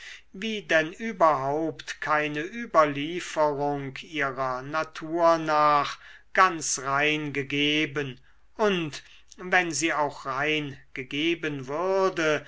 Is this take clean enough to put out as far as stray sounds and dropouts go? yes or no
yes